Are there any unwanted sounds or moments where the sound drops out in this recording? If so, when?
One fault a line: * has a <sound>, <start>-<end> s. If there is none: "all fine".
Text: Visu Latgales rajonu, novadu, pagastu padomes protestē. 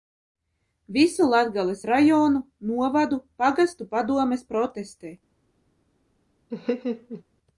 * has a laugh, 6.5-7.2 s